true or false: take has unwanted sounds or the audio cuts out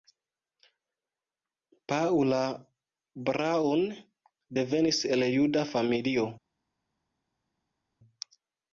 false